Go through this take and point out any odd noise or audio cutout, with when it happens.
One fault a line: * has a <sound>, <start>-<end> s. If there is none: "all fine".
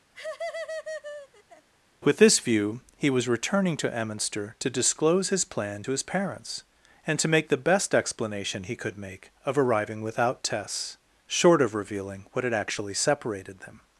* has a laugh, 0.1-1.7 s